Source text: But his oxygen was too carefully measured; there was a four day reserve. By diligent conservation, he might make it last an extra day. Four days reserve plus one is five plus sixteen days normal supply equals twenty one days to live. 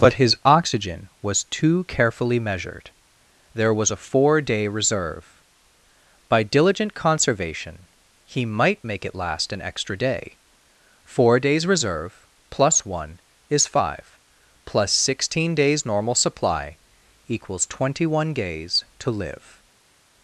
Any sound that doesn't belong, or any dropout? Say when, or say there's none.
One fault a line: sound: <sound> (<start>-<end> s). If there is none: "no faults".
no faults